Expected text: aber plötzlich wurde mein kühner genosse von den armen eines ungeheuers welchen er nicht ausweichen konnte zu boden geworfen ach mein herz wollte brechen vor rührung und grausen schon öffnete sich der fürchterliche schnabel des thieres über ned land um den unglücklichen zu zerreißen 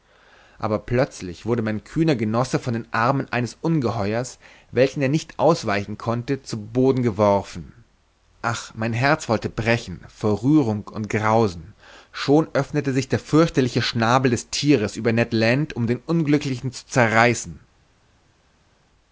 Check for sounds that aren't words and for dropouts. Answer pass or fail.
pass